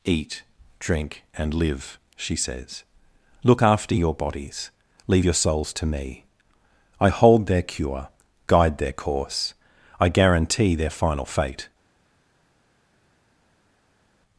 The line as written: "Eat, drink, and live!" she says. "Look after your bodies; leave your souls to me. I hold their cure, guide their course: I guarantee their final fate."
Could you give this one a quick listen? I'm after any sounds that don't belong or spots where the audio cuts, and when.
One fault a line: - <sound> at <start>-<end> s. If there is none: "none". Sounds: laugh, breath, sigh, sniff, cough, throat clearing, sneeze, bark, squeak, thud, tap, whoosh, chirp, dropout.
none